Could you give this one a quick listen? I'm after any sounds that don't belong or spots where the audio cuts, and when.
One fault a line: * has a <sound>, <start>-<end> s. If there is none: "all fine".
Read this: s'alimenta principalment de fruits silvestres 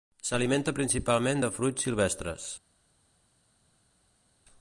all fine